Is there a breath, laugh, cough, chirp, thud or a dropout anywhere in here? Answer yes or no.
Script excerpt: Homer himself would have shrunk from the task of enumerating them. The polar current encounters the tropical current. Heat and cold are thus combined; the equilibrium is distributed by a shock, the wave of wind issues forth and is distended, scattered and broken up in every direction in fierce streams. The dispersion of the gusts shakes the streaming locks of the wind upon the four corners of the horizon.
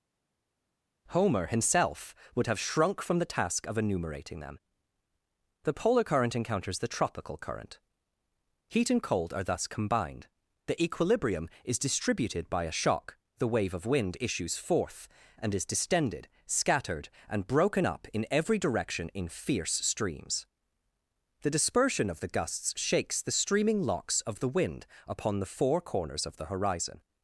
no